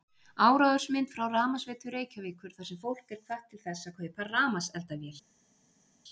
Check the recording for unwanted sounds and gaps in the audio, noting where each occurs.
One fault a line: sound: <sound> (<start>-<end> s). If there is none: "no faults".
no faults